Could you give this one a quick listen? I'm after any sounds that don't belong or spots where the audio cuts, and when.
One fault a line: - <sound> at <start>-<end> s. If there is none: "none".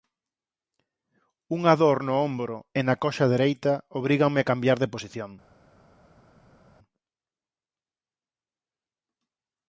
none